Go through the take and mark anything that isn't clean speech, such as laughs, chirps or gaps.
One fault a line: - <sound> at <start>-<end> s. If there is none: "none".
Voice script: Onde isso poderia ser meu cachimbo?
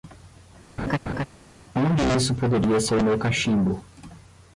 - laugh at 0.8-1.3 s